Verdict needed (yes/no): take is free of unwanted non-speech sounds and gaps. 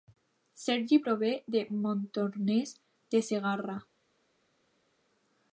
yes